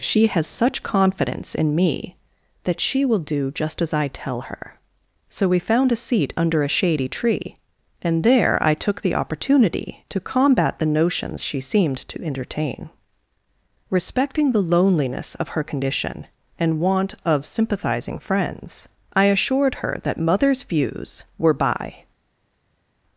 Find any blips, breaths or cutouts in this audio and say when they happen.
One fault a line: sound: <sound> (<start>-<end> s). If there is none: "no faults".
no faults